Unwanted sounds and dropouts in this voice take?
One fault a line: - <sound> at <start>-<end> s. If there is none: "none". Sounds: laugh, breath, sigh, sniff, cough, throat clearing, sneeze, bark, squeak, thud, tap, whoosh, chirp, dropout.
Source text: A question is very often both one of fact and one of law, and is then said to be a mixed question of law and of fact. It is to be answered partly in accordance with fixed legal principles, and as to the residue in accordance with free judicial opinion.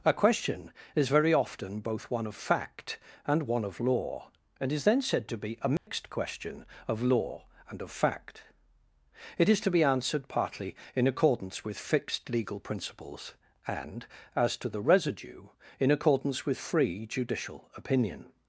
- dropout at 5.8-5.9 s